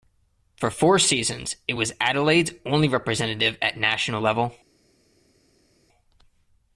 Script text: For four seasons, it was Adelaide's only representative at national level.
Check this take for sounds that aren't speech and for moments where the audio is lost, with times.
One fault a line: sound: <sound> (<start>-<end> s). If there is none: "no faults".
no faults